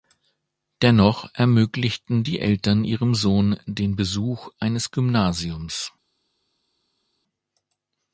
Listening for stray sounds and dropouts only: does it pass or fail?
pass